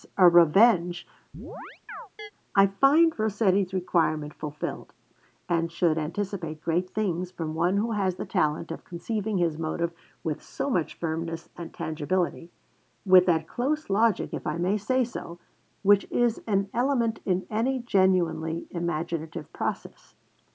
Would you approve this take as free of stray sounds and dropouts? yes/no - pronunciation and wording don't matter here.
no